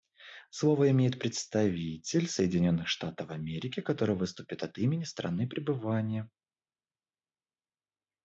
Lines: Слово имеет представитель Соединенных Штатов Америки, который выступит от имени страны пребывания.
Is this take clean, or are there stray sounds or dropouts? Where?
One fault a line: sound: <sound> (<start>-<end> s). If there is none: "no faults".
no faults